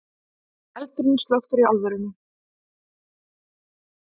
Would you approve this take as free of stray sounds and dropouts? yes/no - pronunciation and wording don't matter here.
yes